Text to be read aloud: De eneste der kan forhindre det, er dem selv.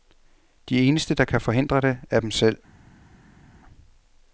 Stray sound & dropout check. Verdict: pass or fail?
pass